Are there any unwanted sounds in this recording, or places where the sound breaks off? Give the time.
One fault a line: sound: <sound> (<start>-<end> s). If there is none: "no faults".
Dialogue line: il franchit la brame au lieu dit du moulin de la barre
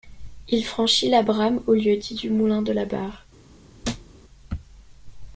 sound: thud (3.8-4.1 s)